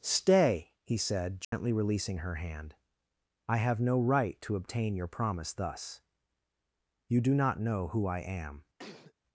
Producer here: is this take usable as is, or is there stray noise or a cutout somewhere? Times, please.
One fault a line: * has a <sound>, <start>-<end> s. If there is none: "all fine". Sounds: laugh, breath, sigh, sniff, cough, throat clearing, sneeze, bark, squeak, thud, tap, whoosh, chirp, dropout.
* has a dropout, 1.4-1.5 s
* has a sneeze, 8.8-9.1 s